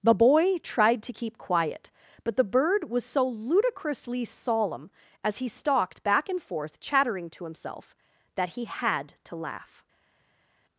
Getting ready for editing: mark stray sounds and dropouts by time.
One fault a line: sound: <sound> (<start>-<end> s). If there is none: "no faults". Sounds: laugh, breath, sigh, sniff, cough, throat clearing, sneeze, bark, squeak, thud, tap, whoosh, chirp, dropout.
no faults